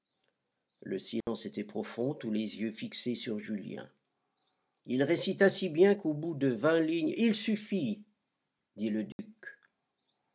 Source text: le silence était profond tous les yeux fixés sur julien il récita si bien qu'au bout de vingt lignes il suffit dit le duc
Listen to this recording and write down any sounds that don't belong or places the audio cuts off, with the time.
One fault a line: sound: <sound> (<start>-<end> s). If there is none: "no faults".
sound: dropout (1.2-1.3 s)
sound: dropout (9.1-9.2 s)